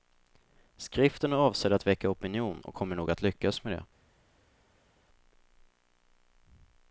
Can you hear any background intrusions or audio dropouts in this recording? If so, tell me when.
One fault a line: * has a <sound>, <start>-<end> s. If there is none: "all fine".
all fine